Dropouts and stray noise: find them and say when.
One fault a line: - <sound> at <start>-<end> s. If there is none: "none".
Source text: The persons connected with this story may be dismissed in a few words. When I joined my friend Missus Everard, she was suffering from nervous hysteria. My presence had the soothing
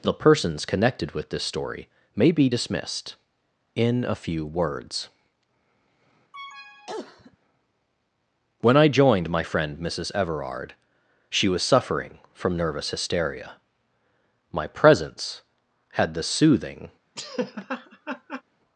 - cough at 6.3-7.4 s
- laugh at 17.2-18.4 s